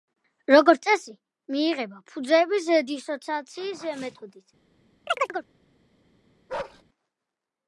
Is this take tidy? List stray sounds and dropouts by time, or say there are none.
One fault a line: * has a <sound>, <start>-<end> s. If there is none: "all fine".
* has a chirp, 5.1-5.5 s
* has a bark, 6.5-6.8 s